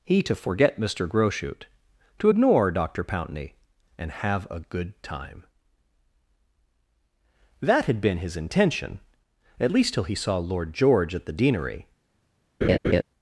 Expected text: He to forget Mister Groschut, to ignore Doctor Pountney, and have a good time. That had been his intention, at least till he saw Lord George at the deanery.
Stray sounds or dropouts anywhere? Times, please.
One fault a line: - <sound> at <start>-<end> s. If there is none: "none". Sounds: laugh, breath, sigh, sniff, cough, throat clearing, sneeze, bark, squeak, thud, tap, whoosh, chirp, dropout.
- laugh at 12.6-13.0 s